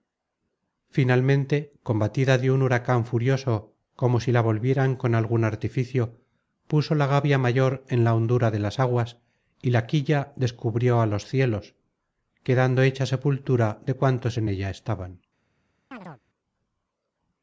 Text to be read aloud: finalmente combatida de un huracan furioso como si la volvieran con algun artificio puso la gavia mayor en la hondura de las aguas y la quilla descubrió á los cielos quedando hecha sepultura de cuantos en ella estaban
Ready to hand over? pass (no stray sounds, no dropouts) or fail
fail